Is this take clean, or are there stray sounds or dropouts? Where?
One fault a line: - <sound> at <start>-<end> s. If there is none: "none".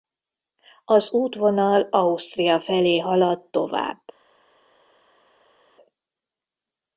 none